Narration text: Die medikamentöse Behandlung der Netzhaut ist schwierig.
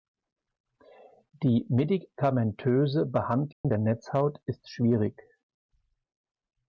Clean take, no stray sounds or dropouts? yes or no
no